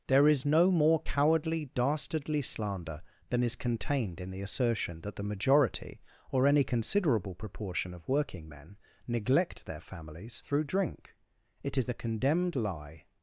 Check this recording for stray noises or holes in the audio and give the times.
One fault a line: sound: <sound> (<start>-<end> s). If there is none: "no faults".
no faults